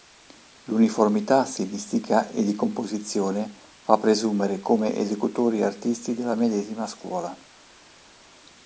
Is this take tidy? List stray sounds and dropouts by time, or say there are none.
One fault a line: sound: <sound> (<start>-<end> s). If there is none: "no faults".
no faults